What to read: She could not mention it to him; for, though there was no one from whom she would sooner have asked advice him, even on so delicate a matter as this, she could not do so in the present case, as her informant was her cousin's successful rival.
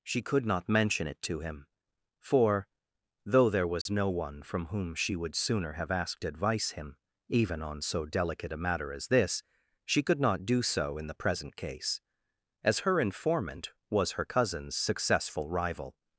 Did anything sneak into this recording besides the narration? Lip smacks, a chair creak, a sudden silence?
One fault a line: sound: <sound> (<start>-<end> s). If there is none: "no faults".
sound: dropout (3.8-3.9 s)